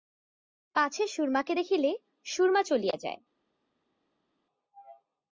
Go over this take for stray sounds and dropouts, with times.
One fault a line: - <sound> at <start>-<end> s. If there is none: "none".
none